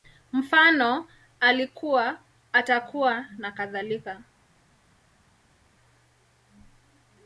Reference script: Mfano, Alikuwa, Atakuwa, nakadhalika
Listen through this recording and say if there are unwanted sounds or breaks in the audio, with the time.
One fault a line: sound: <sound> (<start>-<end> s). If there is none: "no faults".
no faults